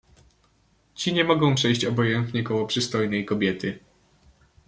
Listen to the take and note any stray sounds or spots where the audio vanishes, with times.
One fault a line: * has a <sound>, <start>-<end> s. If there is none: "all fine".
all fine